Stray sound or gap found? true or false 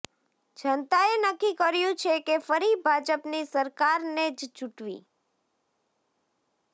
false